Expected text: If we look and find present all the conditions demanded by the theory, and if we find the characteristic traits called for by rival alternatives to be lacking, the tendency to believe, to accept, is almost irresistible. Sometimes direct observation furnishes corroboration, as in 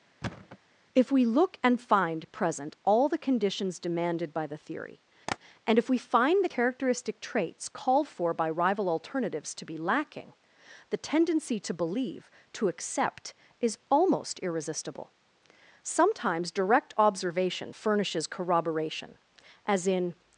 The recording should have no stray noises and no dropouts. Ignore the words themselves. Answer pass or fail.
fail